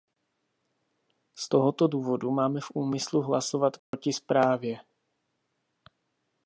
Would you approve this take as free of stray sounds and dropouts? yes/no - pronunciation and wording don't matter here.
no